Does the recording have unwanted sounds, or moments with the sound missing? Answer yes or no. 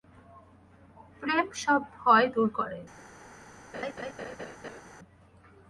yes